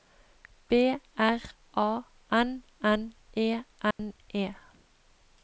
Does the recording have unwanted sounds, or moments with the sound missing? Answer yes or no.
yes